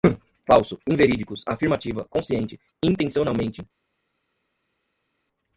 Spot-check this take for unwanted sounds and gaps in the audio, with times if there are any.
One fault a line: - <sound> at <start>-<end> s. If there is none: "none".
none